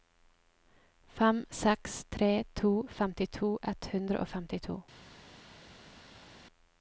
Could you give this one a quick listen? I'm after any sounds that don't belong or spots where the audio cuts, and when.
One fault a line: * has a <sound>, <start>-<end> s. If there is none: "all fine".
all fine